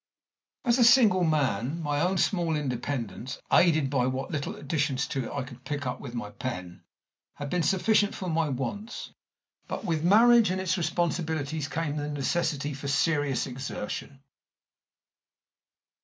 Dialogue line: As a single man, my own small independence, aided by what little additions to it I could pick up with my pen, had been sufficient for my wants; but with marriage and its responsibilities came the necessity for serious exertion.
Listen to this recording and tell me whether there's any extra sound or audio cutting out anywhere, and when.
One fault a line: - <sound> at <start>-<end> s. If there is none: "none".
none